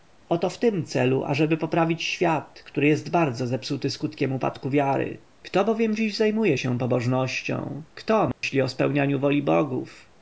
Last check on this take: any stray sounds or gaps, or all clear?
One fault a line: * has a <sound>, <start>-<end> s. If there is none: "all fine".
* has a dropout, 8.3-8.4 s